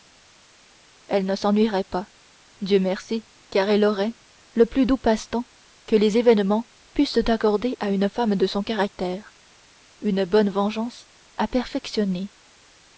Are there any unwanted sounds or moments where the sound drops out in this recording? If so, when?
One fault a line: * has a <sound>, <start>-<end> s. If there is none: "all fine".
all fine